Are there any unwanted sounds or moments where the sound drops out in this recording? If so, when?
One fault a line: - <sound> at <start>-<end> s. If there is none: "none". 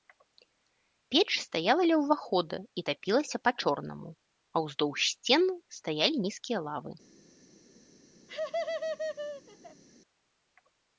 - laugh at 8.3-9.8 s